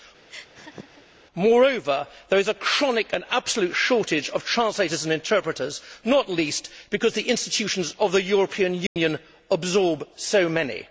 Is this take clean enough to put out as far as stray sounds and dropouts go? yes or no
no